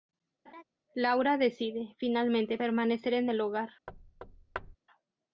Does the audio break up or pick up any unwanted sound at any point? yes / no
yes